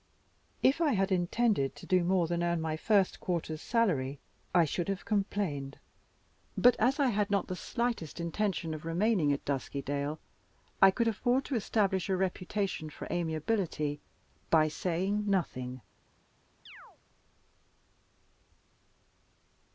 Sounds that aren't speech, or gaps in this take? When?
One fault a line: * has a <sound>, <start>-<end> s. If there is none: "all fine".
* has a chirp, 16.7-17.0 s